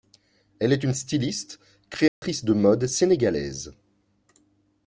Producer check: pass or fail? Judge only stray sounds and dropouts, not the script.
fail